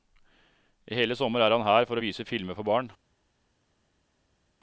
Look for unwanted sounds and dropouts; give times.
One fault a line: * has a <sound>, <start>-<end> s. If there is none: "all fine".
all fine